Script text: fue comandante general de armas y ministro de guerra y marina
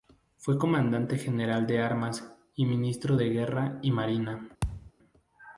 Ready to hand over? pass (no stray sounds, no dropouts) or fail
fail